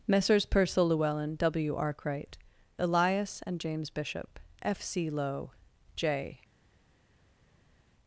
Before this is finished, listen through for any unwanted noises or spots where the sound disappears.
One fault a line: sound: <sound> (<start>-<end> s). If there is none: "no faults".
no faults